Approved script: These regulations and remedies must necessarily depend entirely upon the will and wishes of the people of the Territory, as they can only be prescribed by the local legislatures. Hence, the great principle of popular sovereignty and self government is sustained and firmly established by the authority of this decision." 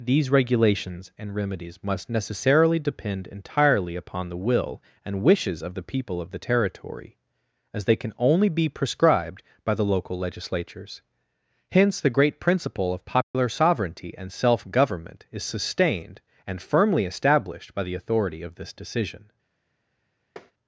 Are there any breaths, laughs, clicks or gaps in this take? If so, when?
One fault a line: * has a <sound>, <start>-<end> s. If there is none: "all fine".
* has a dropout, 13.2-13.3 s
* has a tap, 20.4-20.5 s